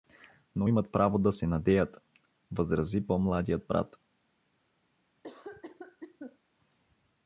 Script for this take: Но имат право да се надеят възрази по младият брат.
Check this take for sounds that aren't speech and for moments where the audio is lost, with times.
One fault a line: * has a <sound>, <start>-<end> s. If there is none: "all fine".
* has a cough, 5.2-6.4 s